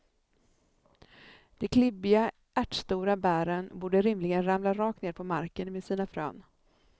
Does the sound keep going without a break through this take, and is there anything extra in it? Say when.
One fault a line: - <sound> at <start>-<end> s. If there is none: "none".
none